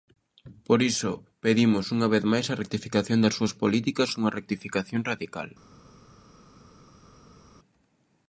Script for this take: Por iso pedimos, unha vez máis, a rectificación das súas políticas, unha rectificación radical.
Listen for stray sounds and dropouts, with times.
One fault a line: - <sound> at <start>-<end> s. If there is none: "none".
none